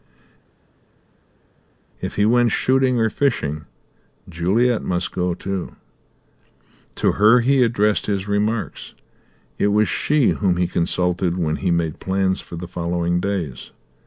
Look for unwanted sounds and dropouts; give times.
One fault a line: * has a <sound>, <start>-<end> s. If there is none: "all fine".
all fine